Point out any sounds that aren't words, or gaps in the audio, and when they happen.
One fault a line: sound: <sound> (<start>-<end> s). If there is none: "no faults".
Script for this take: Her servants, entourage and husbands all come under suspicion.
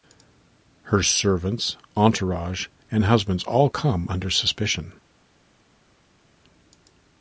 no faults